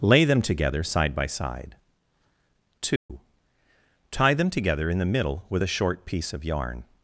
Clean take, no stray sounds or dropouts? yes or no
no